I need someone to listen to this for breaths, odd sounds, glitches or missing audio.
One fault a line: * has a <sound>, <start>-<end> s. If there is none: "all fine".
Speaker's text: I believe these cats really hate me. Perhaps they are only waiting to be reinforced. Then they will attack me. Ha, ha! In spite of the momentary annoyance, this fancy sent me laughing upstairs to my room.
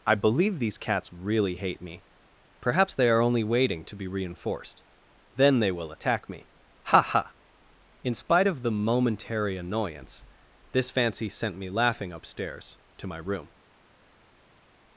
all fine